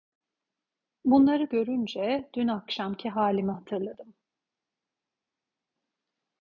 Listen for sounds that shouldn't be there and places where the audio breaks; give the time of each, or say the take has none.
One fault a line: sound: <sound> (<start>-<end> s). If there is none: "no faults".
no faults